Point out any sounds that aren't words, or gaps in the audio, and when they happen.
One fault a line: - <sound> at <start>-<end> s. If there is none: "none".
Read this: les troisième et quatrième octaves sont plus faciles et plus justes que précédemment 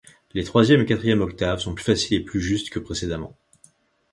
none